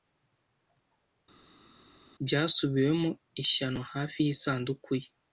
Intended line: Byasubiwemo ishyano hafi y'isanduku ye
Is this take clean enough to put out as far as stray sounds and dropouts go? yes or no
yes